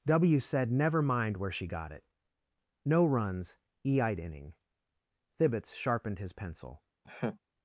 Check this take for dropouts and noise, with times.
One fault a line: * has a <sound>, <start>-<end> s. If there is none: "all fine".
* has a laugh, 7.0-7.4 s